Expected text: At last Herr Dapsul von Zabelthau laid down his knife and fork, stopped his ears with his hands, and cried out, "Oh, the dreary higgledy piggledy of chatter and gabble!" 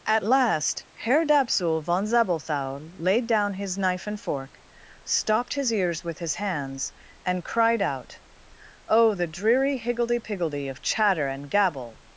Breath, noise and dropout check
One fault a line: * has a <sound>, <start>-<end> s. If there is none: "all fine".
all fine